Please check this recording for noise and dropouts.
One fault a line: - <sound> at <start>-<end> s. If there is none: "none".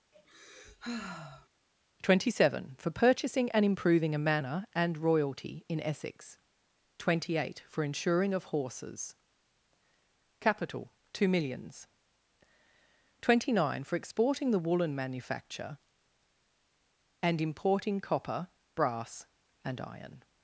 - sigh at 0.1-1.5 s